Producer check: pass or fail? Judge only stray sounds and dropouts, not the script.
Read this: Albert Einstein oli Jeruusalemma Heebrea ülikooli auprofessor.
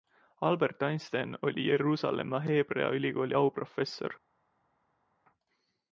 pass